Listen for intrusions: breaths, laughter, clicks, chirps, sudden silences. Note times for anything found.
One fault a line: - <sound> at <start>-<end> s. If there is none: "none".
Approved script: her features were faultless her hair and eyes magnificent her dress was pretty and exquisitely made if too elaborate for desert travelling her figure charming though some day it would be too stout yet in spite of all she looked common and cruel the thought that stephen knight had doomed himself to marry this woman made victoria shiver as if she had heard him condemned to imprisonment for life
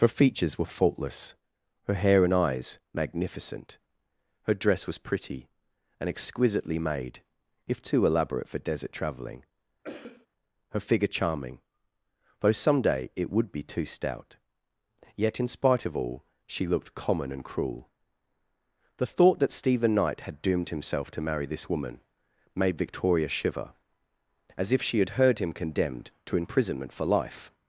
- cough at 9.8-10.3 s